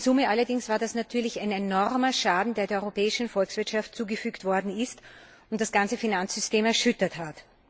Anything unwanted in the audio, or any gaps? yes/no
no